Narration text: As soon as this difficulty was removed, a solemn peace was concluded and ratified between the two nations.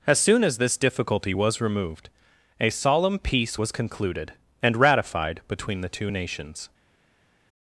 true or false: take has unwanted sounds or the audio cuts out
false